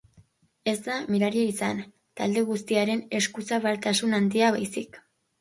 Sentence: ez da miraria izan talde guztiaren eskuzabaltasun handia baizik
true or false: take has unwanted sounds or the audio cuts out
false